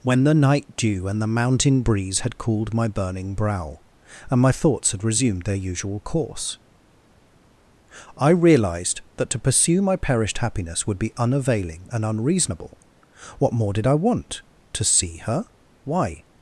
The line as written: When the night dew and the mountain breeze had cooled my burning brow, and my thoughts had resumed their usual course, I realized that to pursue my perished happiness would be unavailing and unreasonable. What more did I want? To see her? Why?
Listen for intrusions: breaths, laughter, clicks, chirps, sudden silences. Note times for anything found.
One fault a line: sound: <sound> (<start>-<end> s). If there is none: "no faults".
no faults